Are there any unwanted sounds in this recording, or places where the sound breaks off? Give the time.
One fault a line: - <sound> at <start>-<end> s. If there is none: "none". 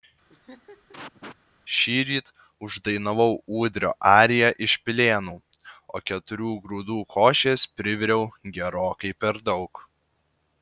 - laugh at 0.3-1.4 s